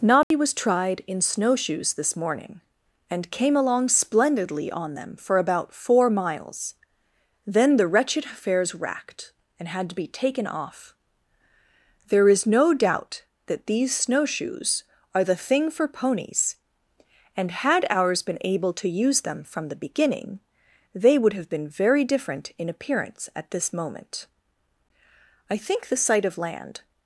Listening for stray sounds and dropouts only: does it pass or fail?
fail